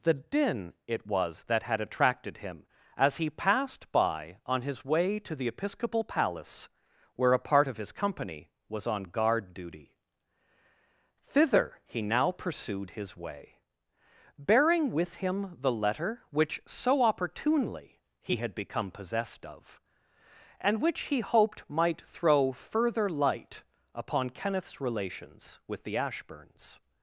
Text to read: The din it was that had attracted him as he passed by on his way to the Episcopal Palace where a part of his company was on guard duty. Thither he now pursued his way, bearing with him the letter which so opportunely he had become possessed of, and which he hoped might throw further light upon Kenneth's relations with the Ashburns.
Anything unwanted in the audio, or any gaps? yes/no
no